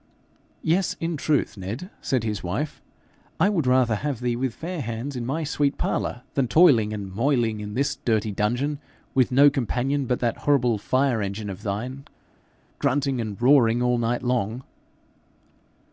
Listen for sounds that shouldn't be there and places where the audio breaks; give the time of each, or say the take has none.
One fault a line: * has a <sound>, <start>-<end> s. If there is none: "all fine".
all fine